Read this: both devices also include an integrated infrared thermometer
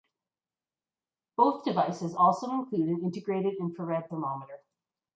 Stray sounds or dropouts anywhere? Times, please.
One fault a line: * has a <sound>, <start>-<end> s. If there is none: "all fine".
all fine